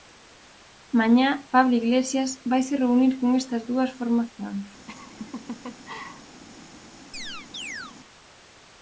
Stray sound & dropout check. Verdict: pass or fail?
fail